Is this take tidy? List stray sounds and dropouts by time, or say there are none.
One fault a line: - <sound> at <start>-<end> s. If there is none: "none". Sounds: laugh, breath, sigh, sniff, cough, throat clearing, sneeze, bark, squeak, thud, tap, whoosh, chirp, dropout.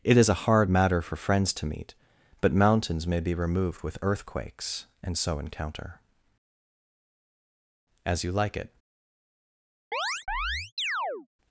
- chirp at 9.9-11.3 s